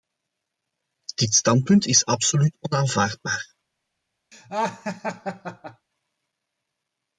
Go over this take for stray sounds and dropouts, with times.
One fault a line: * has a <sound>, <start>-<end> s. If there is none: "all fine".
* has a laugh, 4.3-5.9 s